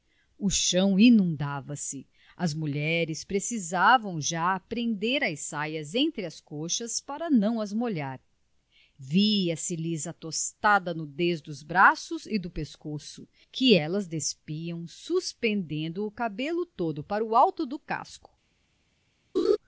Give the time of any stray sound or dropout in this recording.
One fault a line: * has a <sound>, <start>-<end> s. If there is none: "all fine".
* has a laugh, 19.3-19.6 s